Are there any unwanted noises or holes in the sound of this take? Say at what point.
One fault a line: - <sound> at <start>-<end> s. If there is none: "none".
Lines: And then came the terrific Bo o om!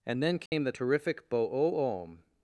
- dropout at 0.5-0.5 s